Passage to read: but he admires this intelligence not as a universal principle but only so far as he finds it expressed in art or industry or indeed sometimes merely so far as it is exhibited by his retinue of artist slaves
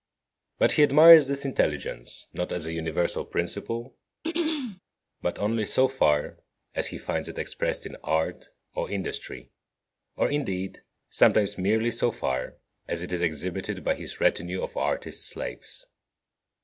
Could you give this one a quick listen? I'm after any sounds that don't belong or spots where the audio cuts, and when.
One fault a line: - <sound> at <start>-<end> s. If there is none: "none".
- throat clearing at 4.2-4.8 s